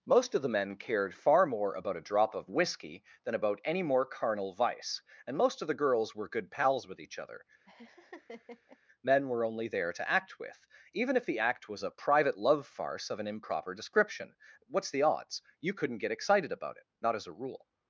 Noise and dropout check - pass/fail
fail